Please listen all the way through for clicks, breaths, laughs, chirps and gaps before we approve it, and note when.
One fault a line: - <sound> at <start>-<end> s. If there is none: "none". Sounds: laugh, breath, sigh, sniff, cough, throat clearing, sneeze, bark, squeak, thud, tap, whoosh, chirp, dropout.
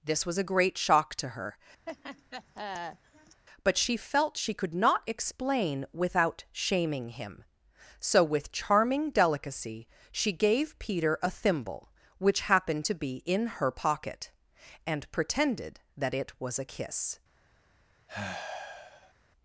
- laugh at 1.9-3.4 s
- sigh at 18.1-19.1 s